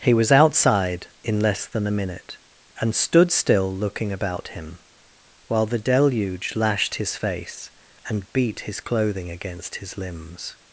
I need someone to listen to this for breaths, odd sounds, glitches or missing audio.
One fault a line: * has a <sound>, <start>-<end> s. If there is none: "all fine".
all fine